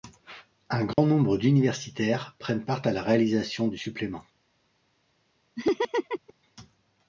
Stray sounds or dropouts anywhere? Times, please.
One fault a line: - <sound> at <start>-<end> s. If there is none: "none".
- dropout at 0.9-1.0 s
- laugh at 5.6-6.3 s